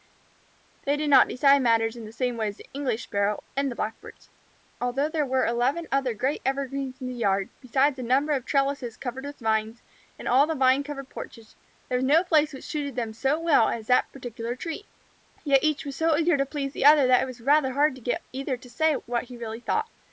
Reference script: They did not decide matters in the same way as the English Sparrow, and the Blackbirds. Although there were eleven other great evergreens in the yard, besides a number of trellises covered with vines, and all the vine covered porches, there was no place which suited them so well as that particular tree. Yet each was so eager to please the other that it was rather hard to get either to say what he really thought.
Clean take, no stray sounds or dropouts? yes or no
yes